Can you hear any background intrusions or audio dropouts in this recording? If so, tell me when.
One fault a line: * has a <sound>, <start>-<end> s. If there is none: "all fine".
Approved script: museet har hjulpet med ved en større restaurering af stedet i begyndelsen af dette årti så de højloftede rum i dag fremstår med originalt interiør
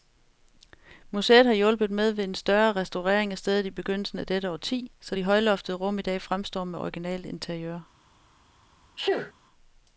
* has a sneeze, 9.0-9.3 s